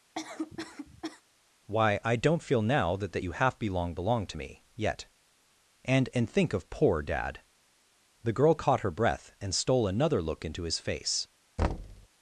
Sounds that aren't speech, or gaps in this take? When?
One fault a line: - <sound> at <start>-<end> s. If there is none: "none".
- cough at 0.1-1.2 s
- thud at 11.6-12.1 s